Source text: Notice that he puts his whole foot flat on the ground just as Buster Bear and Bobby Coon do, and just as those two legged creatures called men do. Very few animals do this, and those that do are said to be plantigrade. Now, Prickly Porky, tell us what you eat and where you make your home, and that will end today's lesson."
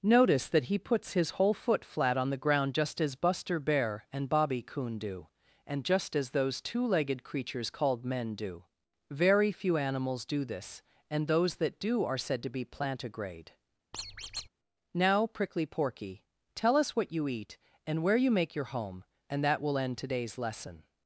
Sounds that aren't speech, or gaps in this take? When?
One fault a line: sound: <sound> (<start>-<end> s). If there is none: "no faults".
sound: squeak (13.9-14.5 s)